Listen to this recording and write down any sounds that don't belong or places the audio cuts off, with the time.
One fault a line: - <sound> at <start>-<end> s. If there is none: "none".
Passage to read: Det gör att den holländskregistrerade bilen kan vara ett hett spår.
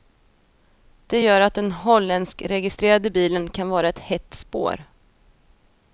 none